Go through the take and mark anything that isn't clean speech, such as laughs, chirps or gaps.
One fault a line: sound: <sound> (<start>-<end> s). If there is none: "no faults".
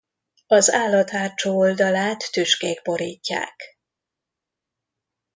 no faults